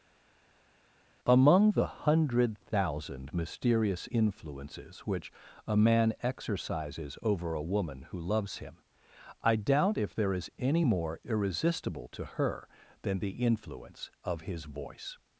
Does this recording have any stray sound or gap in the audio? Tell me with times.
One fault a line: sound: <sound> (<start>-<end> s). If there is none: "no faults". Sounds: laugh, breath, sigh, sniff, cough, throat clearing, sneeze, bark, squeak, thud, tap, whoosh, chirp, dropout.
no faults